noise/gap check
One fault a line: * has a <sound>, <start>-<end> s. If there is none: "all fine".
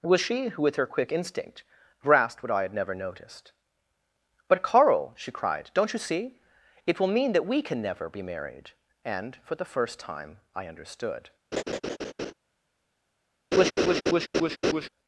* has a laugh, 11.5-12.3 s
* has a laugh, 13.5-14.9 s